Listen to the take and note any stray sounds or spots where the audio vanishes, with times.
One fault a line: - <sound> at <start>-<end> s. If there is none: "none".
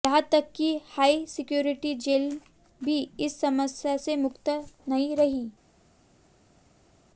none